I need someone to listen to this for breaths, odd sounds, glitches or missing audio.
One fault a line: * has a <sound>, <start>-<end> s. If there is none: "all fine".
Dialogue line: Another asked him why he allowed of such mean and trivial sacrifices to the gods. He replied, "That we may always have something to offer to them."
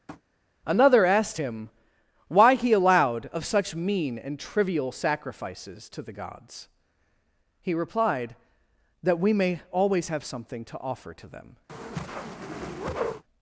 * has a tap, 0.1-0.2 s
* has a whoosh, 11.7-13.2 s